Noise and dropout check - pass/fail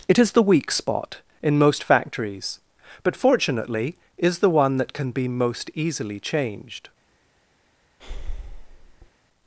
fail